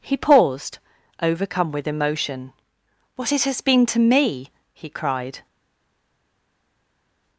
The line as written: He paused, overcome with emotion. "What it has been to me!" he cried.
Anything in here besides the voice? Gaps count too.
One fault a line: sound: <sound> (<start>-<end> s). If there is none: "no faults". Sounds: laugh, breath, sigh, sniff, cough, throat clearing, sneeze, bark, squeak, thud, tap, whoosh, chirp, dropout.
no faults